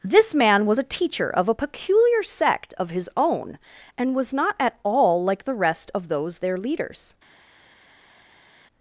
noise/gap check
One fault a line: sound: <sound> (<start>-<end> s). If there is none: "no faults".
no faults